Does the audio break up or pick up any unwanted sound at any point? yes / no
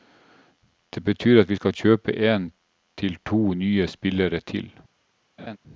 yes